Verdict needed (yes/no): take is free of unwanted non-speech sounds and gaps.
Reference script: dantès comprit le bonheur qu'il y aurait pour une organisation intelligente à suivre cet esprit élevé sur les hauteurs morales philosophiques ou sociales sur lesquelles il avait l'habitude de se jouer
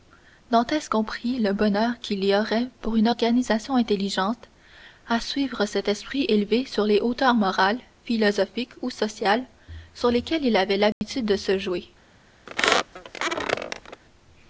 no